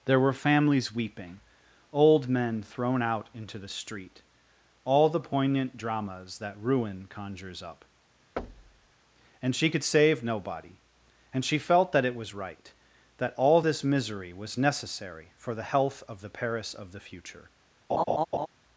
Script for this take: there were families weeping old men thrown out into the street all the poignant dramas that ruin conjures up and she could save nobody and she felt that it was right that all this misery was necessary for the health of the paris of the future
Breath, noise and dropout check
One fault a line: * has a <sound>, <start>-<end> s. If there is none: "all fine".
* has a thud, 8.4-8.9 s
* has a laugh, 17.9-18.5 s